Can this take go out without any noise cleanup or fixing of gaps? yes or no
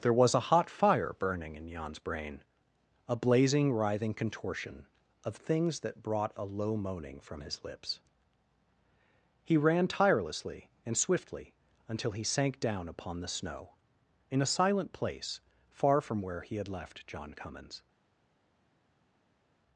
yes